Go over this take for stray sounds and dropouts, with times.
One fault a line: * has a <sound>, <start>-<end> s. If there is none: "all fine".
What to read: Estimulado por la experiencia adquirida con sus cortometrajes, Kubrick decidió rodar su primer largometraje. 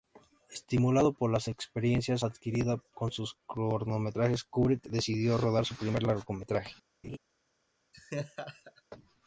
* has a laugh, 7.0-7.2 s
* has a laugh, 7.9-8.8 s